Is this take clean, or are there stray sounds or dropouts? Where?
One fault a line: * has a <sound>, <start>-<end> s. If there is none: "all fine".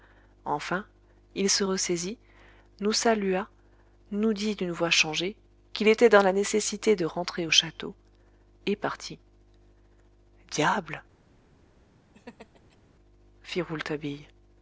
* has a laugh, 12.1-12.8 s